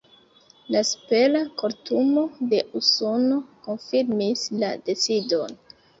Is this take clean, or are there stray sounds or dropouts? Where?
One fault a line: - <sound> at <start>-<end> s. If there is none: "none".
none